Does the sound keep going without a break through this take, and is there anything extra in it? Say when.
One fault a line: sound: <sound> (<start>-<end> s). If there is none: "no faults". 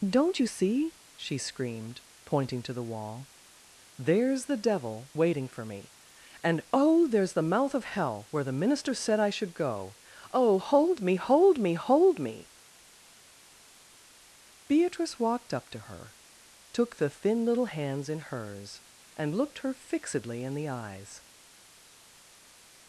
no faults